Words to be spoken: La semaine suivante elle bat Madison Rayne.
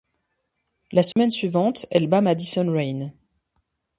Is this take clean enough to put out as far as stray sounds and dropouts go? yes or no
no